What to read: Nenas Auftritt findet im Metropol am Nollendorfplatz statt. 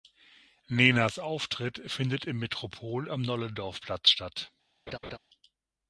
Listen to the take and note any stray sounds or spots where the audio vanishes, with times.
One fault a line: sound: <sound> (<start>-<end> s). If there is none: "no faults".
sound: laugh (4.9-5.2 s)